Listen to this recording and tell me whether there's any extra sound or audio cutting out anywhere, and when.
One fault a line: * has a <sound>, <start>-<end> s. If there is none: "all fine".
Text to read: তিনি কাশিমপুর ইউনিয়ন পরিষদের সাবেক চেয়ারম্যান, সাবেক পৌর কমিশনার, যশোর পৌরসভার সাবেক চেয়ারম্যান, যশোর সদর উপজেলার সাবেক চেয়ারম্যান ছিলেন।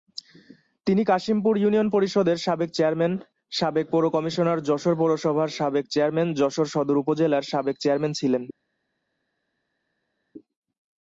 all fine